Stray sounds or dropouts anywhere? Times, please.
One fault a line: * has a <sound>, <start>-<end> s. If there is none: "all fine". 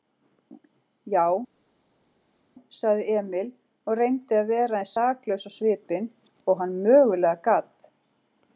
all fine